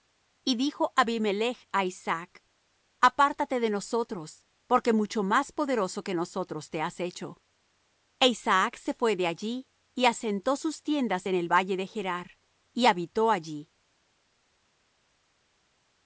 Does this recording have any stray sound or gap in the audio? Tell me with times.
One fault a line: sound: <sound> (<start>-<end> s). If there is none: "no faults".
no faults